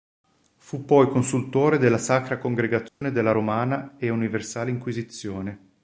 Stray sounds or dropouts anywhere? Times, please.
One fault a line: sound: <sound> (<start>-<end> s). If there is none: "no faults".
sound: dropout (2.9-3.0 s)